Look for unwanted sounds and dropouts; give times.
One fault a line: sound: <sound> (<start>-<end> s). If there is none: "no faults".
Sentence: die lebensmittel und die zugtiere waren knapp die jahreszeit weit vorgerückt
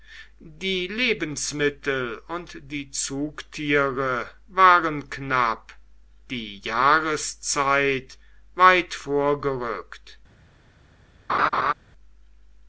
sound: laugh (11.3-11.7 s)